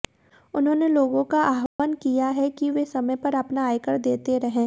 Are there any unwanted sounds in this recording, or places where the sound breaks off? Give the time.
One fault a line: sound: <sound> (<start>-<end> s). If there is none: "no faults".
sound: dropout (1.7-1.8 s)